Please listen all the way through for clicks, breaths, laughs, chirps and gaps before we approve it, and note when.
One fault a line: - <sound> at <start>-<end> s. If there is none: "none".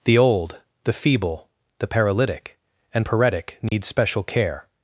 - dropout at 3.7-3.7 s